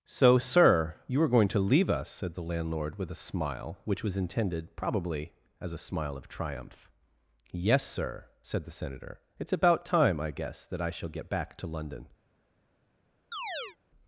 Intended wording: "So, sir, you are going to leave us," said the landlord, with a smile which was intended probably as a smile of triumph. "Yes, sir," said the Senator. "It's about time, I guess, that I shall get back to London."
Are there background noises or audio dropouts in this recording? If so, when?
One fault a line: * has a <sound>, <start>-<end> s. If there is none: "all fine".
* has a chirp, 13.3-13.8 s